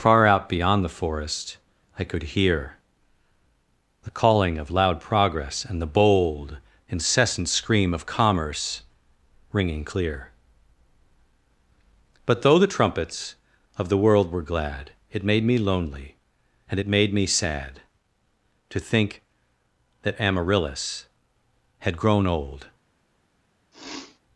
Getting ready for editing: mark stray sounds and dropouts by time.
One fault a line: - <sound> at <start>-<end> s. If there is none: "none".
- sneeze at 23.7-24.2 s